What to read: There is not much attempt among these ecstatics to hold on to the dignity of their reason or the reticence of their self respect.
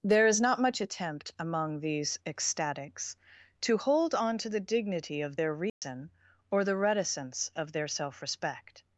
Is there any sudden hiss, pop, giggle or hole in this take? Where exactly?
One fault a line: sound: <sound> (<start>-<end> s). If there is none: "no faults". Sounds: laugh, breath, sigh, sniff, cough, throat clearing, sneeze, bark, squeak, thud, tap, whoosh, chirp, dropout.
sound: dropout (5.7-5.8 s)